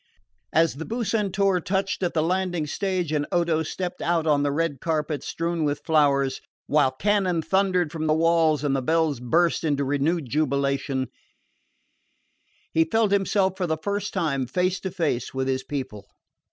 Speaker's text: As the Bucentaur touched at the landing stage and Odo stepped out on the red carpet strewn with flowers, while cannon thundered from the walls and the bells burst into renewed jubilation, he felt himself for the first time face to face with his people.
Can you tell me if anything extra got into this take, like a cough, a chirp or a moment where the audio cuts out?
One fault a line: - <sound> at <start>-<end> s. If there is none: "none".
none